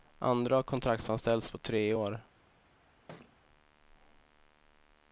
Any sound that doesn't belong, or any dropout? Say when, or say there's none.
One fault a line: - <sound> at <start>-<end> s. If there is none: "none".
- thud at 3.1-3.4 s